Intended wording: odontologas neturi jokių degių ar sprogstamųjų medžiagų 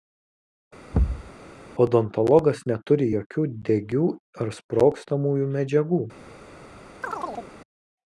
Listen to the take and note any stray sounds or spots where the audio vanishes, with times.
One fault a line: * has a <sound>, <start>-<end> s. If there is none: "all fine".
* has a thud, 0.9-1.3 s
* has a chirp, 7.0-7.5 s